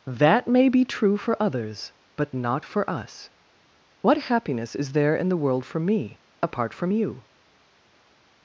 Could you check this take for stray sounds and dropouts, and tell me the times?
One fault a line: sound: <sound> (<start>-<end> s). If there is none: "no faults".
no faults